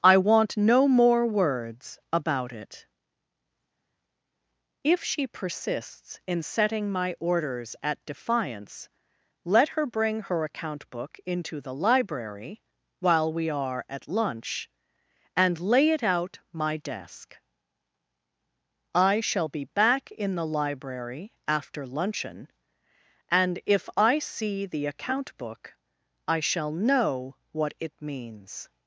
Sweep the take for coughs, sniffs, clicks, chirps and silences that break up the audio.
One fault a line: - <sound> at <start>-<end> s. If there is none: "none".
none